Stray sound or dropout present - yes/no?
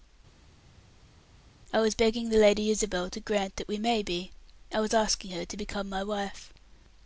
no